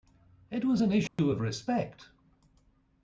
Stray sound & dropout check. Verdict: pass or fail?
fail